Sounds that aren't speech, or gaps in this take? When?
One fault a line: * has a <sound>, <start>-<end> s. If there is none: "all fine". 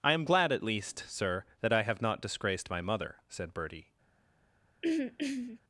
* has a throat clearing, 4.8-5.6 s